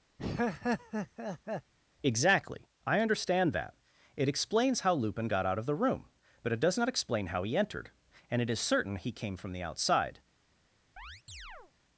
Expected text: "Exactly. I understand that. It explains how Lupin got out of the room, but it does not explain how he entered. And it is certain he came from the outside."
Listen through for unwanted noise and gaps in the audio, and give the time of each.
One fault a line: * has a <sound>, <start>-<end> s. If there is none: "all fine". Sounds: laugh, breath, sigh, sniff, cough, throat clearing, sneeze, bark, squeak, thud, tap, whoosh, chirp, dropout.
* has a laugh, 0.2-1.7 s
* has a chirp, 11.0-11.7 s